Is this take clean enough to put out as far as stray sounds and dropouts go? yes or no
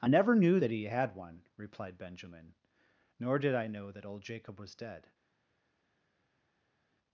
yes